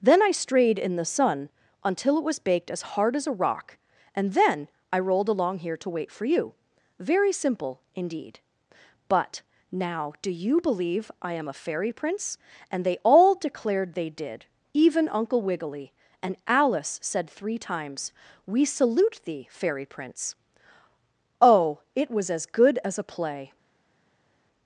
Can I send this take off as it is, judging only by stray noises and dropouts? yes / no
yes